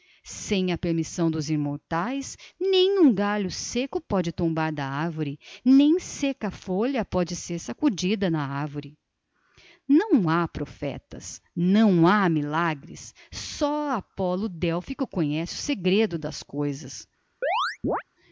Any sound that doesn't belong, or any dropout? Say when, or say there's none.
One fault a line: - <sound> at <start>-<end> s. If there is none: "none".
- chirp at 17.4-18.0 s